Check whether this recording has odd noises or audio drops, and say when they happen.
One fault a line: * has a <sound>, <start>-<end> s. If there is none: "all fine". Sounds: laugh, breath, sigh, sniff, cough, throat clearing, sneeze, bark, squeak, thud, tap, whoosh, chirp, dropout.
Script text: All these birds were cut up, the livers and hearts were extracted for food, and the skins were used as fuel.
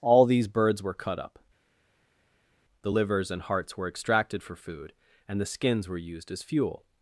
all fine